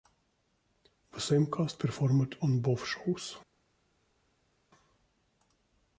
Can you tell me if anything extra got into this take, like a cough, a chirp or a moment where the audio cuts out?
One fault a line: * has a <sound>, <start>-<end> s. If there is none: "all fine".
all fine